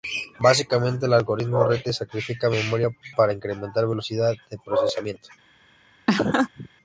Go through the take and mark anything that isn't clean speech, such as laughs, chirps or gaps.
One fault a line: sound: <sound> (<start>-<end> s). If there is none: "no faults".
sound: laugh (6.1-6.7 s)